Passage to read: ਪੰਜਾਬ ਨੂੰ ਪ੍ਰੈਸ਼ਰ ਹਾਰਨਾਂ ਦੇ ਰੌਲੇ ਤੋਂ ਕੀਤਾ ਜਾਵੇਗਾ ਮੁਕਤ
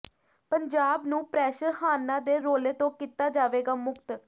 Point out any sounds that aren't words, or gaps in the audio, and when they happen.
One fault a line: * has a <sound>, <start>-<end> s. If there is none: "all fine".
all fine